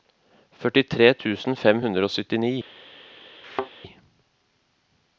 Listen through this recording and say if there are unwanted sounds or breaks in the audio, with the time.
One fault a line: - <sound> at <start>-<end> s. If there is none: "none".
- thud at 3.4-3.7 s